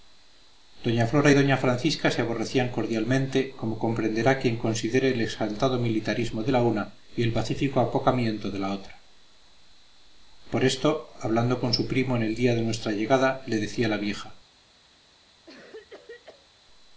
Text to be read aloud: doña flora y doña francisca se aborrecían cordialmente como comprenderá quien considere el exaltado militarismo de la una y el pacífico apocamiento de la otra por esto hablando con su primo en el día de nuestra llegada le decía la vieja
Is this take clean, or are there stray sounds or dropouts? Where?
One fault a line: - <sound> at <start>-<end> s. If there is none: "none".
- cough at 15.5-16.5 s